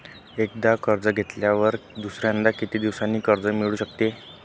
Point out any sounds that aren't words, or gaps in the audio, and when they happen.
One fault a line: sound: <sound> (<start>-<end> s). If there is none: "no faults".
no faults